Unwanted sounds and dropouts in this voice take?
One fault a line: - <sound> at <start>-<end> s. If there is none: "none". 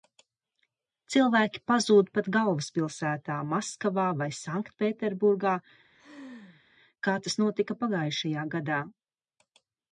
- laugh at 5.9-6.6 s